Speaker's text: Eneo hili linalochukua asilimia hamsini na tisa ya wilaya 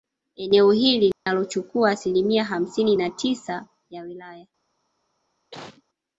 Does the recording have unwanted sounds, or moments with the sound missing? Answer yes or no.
yes